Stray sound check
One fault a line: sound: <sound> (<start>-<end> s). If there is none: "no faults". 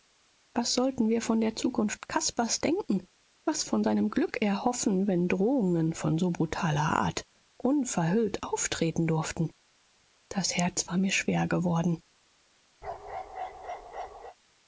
sound: bark (12.8-14.4 s)